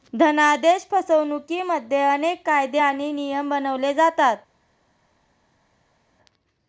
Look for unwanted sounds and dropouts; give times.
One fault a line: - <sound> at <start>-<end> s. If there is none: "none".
none